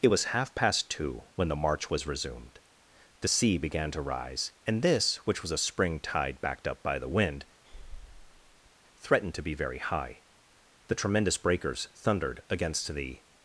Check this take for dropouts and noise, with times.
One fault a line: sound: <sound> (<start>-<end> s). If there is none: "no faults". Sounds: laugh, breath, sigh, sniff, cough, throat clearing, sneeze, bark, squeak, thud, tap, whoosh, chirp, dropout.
sound: breath (7.6-8.7 s)